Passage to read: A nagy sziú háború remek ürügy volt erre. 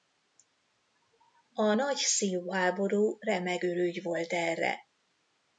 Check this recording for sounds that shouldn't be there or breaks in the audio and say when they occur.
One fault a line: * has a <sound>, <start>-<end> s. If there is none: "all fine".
all fine